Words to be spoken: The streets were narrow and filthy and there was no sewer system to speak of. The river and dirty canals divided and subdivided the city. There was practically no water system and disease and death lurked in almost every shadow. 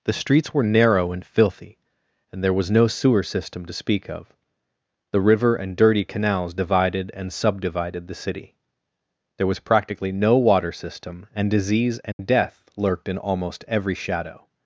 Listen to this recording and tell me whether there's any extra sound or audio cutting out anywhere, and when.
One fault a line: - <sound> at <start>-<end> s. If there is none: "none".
- dropout at 12.1-12.2 s